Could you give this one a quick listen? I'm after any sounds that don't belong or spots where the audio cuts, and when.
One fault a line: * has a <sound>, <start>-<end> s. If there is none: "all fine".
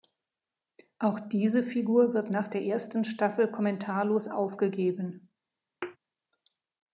* has a thud, 5.8-6.0 s